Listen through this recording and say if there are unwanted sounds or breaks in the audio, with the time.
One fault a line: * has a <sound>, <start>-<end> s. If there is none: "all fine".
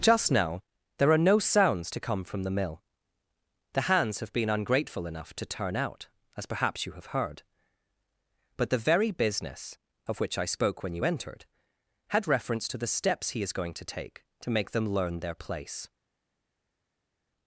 all fine